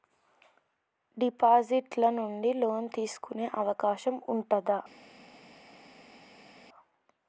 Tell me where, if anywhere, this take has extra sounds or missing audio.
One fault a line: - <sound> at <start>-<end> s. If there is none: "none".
none